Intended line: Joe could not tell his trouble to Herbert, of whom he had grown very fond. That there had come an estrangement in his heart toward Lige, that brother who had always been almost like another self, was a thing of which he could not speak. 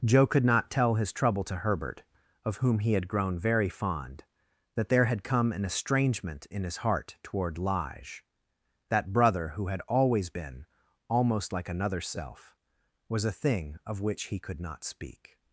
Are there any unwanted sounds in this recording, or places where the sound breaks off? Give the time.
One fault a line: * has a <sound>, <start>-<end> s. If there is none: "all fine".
all fine